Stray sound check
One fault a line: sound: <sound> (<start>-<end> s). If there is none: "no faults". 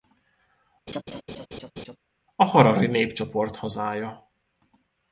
sound: laugh (0.9-2.0 s)